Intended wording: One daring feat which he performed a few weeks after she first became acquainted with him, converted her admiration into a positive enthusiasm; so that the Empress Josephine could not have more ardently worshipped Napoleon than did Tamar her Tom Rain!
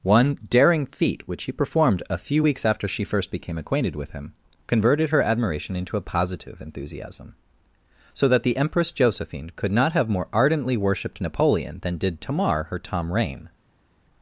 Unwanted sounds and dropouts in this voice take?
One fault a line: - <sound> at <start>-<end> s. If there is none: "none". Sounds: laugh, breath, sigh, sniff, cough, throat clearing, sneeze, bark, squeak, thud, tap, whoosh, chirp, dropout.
none